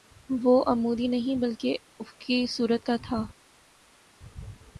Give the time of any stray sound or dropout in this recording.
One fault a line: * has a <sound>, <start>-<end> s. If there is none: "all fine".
all fine